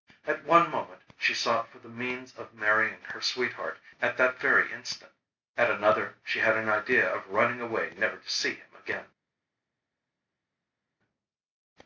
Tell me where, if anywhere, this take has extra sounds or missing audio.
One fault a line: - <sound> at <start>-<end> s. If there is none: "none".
none